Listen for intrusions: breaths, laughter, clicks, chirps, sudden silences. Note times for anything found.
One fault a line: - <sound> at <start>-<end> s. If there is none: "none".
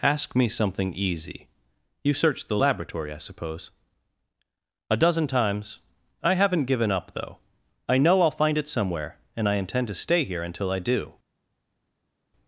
none